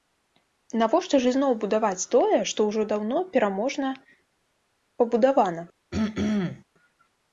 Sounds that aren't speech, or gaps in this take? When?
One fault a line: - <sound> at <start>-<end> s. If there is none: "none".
- throat clearing at 5.9-6.6 s